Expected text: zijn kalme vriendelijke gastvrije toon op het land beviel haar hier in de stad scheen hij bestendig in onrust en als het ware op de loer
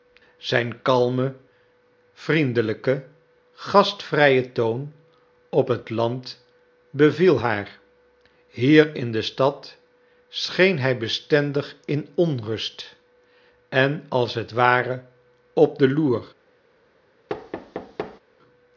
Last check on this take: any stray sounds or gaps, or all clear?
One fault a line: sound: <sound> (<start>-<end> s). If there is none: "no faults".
sound: thud (17.3-18.2 s)